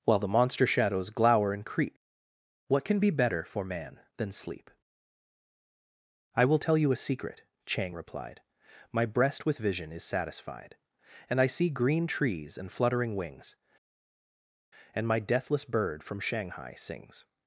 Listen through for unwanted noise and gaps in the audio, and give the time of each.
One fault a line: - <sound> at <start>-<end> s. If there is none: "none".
none